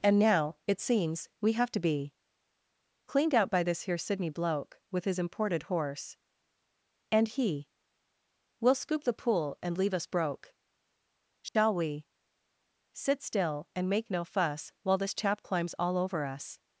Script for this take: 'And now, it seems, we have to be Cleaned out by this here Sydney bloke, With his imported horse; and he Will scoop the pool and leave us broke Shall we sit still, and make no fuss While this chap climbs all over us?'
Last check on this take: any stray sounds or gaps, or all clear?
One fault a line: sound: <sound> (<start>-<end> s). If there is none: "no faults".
sound: dropout (11.5-11.6 s)